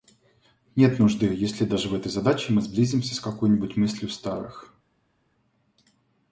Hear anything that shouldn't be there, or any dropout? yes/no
no